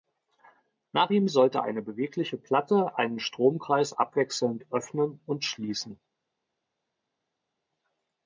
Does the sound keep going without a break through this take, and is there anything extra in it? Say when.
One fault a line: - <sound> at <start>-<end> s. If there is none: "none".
none